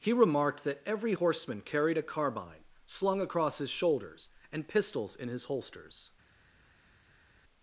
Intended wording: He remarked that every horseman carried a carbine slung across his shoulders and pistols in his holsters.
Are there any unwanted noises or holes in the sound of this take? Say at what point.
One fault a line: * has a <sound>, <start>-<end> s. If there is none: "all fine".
all fine